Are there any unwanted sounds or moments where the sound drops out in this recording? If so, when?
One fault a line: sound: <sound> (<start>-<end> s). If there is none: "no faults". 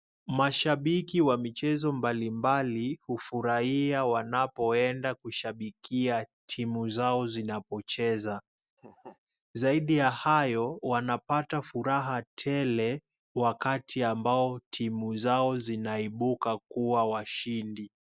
sound: laugh (8.8-9.2 s)